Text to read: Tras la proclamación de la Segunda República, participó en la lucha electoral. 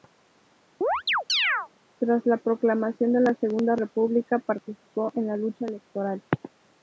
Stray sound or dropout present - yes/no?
yes